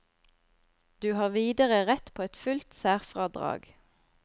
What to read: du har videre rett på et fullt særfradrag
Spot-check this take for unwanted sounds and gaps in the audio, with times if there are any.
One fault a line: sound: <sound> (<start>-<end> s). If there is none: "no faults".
no faults